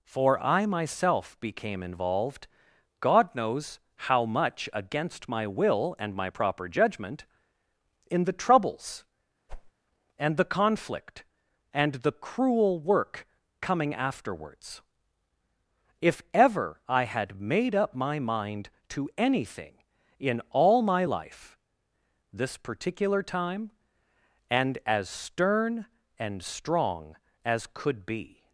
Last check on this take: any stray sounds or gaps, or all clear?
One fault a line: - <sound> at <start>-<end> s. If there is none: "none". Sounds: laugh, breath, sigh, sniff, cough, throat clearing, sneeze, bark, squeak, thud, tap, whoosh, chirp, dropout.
- whoosh at 9.5-9.7 s